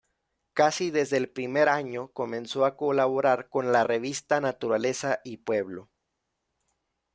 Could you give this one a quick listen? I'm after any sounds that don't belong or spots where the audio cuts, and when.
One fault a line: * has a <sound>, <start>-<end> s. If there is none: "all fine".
all fine